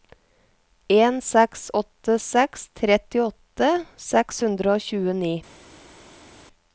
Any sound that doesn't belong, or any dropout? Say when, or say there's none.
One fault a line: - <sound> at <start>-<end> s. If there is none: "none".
none